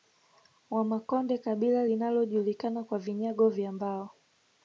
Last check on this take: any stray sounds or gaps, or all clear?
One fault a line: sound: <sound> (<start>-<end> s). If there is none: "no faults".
no faults